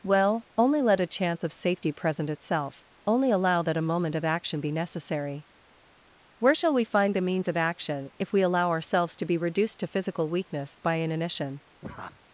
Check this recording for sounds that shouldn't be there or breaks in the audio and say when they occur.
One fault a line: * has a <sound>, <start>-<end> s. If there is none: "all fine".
* has a laugh, 11.8-12.2 s